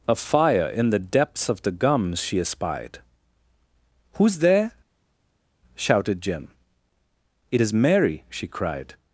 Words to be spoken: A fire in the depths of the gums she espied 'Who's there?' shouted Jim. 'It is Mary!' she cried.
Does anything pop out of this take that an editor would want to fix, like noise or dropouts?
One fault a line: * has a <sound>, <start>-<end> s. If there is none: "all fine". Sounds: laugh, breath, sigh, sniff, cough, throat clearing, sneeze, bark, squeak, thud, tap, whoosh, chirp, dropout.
all fine